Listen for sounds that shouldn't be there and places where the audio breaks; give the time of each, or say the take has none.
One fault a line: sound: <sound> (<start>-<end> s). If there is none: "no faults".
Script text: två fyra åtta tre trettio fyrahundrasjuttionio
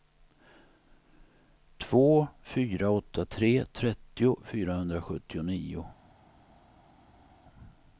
no faults